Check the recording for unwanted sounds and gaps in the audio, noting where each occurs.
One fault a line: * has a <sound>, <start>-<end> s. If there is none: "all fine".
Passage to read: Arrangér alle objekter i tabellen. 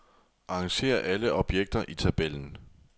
all fine